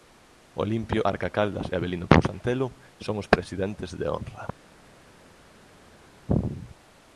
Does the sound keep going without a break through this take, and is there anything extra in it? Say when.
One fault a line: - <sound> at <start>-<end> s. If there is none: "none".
none